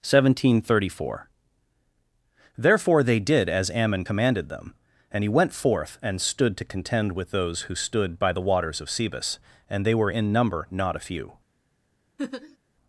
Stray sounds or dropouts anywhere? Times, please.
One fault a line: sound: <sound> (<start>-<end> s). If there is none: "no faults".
sound: laugh (12.2-12.6 s)